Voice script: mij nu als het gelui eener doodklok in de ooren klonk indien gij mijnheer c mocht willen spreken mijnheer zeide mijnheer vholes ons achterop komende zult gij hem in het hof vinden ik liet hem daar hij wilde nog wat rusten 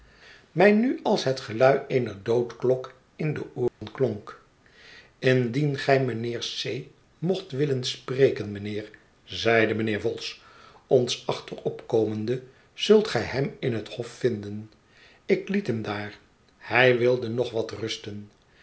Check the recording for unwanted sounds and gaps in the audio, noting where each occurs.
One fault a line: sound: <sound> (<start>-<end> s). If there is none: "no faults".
sound: dropout (3.7-3.8 s)